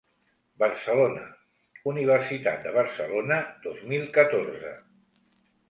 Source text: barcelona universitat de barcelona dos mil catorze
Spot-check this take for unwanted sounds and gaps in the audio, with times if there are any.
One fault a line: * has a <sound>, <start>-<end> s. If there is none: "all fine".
all fine